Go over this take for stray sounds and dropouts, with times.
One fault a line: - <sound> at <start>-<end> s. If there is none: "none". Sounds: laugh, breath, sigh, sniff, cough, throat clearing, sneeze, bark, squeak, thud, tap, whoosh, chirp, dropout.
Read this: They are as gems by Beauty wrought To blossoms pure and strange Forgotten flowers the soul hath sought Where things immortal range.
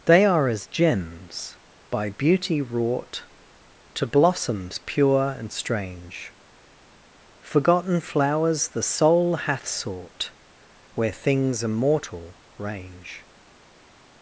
none